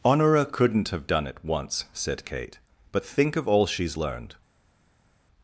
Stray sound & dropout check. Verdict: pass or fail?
pass